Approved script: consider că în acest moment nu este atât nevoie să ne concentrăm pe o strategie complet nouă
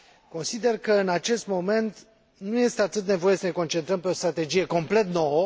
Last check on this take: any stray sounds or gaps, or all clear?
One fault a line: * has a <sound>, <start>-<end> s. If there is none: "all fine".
all fine